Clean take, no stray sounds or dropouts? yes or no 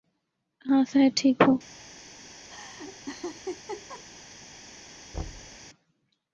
no